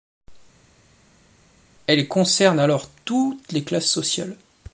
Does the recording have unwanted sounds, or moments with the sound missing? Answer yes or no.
no